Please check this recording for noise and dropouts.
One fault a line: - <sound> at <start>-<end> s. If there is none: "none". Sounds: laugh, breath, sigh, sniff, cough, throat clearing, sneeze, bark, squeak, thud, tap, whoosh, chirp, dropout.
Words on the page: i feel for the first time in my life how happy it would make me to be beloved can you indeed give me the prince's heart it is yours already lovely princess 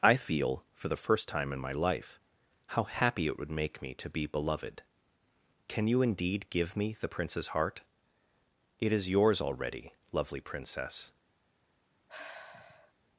- sigh at 12.1-12.9 s